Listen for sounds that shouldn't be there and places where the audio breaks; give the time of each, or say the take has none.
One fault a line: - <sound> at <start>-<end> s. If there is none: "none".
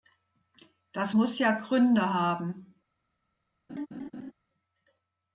- laugh at 3.7-4.3 s